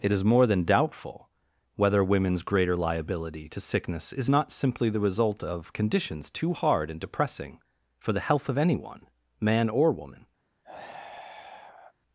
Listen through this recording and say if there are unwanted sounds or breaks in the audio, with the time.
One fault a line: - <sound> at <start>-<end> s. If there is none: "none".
- sigh at 10.6-11.9 s